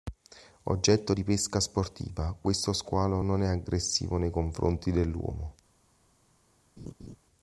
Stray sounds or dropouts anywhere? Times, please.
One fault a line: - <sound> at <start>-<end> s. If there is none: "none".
- laugh at 6.8-7.2 s